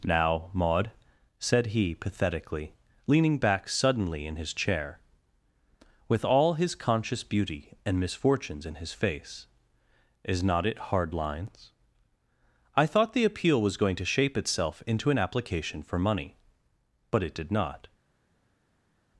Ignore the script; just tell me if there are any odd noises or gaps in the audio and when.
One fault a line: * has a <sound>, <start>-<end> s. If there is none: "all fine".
all fine